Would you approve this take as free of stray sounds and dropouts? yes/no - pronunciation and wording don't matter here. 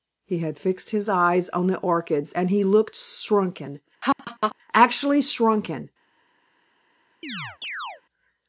no